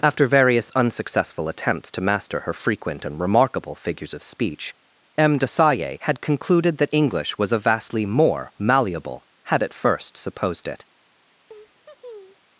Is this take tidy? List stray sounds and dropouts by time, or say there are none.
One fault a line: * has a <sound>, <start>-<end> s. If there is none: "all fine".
* has a laugh, 11.5-12.5 s